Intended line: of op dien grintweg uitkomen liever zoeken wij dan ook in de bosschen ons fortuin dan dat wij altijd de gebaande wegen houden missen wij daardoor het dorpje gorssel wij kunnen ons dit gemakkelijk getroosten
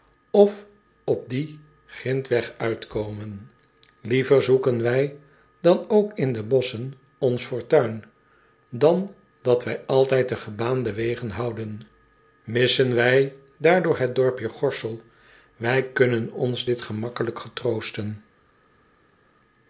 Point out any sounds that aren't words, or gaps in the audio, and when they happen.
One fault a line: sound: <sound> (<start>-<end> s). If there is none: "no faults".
no faults